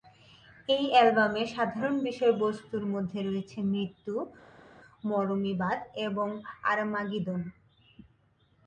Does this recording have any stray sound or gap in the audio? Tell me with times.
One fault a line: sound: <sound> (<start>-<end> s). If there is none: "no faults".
no faults